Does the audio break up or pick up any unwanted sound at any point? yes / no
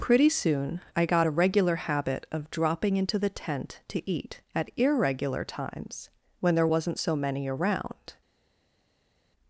no